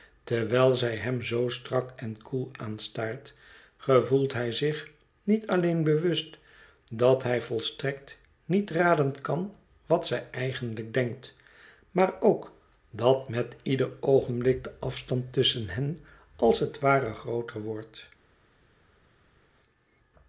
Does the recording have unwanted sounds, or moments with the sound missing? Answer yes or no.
no